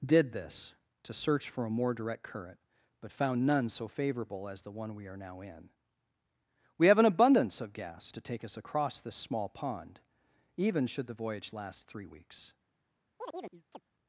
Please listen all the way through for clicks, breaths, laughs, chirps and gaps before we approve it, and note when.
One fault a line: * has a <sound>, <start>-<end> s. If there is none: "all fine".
* has a chirp, 13.2-13.8 s